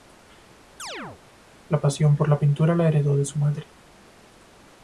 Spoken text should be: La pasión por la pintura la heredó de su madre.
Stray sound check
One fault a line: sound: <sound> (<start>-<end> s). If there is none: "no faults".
sound: chirp (0.8-1.2 s)